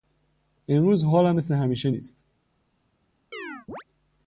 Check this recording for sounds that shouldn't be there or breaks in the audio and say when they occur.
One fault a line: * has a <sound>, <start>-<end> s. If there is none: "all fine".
* has a chirp, 3.3-3.8 s